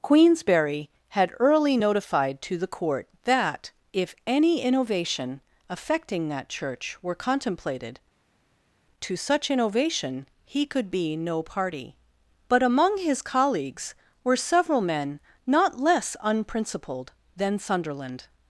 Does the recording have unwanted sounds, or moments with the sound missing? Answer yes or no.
no